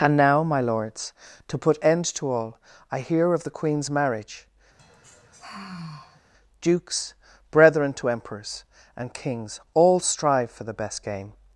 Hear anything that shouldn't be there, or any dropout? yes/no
yes